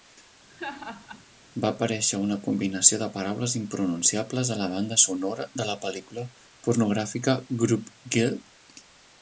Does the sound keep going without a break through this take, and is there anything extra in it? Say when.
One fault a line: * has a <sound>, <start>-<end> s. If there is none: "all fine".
* has a laugh, 0.5-1.2 s